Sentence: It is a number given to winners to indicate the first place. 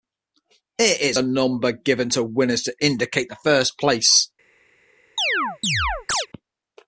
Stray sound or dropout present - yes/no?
yes